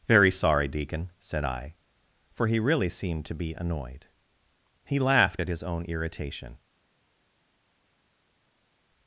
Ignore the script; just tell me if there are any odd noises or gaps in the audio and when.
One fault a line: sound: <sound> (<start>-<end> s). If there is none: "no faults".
no faults